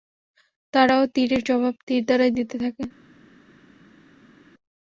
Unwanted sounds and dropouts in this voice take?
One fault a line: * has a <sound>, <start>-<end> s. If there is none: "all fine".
all fine